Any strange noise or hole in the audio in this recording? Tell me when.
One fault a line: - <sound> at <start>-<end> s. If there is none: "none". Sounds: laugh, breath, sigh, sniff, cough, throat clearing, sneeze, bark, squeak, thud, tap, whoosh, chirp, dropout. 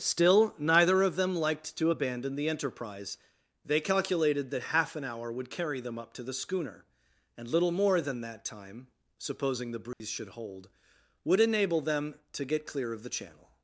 - dropout at 9.9-10.0 s